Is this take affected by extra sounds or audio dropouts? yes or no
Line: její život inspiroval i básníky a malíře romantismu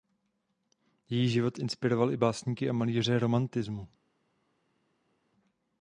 no